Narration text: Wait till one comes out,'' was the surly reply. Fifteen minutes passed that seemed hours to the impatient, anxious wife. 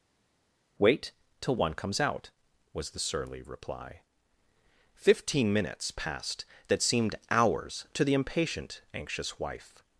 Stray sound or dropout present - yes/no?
no